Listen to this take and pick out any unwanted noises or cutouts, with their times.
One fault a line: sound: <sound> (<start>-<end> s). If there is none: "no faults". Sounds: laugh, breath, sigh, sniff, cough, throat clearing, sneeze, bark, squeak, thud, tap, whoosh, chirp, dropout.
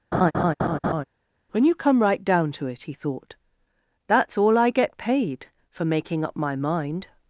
sound: laugh (0.1-1.0 s)